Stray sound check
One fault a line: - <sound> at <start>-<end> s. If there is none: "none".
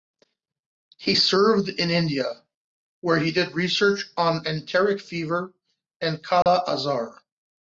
- dropout at 6.4-6.5 s